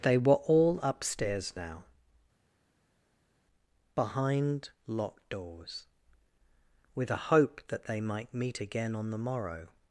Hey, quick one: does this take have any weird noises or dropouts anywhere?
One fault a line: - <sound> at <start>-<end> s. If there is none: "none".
none